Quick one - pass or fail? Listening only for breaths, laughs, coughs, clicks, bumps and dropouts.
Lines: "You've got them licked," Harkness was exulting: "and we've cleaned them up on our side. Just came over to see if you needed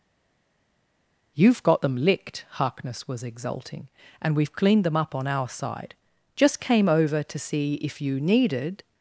pass